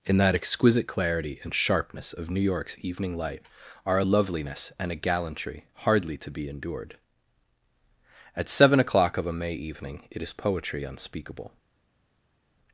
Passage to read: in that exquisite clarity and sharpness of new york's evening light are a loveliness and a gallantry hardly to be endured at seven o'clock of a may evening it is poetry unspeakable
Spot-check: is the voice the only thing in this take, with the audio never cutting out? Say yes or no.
yes